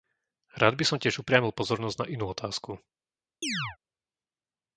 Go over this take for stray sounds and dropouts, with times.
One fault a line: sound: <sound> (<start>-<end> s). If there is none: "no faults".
sound: chirp (3.4-3.8 s)